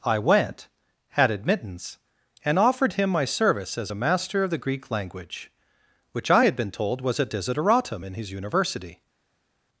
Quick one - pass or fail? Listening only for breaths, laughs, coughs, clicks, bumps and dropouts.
pass